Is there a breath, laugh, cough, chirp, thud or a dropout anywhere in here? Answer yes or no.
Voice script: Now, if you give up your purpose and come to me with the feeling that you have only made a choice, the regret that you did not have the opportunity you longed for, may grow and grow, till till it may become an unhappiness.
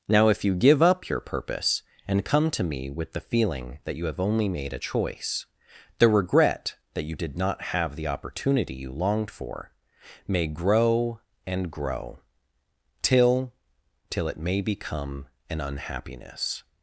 no